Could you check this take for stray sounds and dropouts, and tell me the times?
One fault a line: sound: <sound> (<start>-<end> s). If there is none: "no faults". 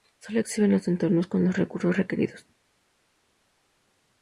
no faults